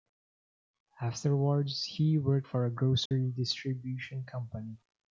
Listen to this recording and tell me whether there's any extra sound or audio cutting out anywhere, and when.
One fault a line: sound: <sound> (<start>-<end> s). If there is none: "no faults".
sound: dropout (3.1-3.1 s)